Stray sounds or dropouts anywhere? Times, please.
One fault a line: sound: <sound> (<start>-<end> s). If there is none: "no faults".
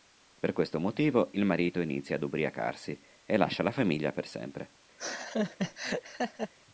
sound: laugh (5.0-6.5 s)